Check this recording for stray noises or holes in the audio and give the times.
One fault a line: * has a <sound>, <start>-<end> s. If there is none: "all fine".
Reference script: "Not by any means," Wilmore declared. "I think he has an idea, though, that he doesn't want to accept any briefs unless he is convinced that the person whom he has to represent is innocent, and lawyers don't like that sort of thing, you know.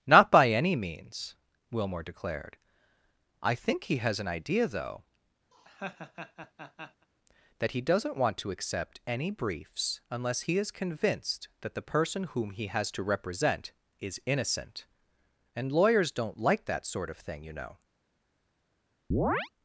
* has a laugh, 5.5-7.1 s
* has a chirp, 19.1-19.5 s